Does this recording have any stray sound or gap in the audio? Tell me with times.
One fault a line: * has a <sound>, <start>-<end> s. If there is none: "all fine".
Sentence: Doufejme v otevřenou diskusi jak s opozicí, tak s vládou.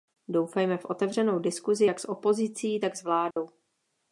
* has a dropout, 3.3-3.4 s